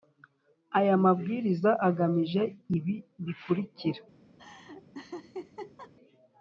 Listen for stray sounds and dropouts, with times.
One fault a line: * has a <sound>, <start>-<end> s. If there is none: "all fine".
* has a laugh, 4.4-5.9 s